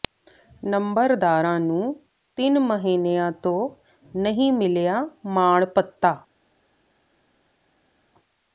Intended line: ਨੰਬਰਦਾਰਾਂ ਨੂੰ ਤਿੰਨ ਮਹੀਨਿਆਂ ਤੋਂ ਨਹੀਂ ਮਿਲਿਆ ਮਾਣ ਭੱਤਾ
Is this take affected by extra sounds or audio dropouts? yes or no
no